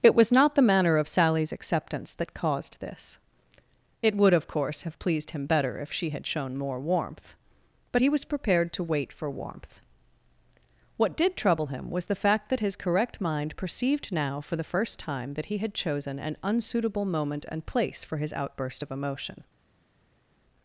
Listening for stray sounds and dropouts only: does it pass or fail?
pass